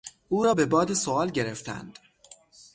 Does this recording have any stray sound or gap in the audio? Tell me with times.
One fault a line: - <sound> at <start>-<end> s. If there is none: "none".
none